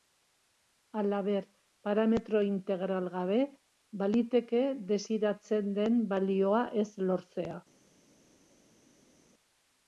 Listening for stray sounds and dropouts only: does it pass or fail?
pass